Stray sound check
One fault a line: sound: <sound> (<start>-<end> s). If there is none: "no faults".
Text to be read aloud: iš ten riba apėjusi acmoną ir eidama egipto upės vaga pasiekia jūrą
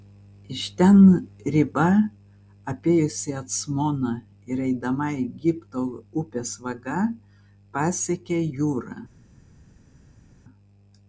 no faults